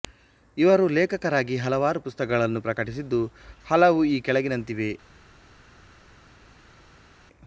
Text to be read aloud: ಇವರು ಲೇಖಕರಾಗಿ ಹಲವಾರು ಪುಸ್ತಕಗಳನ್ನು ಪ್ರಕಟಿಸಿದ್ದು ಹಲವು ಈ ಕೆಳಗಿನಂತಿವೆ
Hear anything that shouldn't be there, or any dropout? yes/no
no